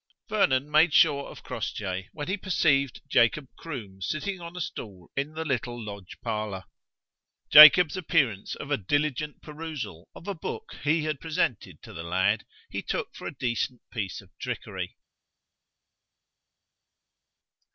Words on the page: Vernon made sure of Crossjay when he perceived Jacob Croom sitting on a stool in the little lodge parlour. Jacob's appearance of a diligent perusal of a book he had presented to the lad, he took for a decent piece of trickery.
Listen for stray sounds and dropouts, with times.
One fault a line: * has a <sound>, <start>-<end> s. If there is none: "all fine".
all fine